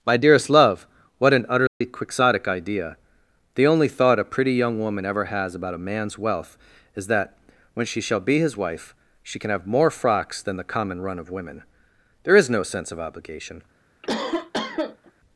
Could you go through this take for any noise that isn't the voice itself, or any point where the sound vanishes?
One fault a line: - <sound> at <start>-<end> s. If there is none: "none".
- dropout at 1.7-1.8 s
- cough at 14.0-15.1 s